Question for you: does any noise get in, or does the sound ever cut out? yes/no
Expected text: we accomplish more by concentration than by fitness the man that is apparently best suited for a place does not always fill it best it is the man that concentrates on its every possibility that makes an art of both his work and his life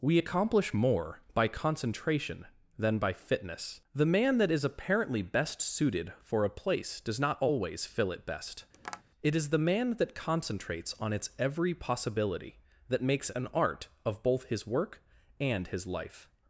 yes